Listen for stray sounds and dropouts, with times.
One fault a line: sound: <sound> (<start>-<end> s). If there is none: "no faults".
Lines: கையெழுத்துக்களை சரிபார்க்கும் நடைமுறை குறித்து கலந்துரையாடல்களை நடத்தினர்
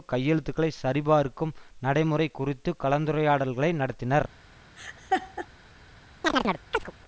sound: laugh (4.8-5.5 s)
sound: chirp (6.2-6.9 s)